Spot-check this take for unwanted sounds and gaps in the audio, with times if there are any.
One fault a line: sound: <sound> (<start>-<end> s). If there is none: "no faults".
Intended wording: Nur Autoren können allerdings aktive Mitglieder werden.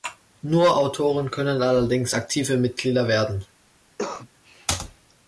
sound: cough (4.0-4.3 s)